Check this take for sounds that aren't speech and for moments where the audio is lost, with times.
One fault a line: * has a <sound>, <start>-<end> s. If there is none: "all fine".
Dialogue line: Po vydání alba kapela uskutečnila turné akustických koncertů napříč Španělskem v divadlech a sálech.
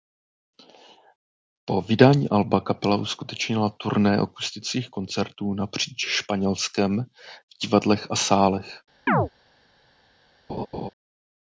* has a chirp, 9.1-9.3 s
* has a laugh, 10.5-10.9 s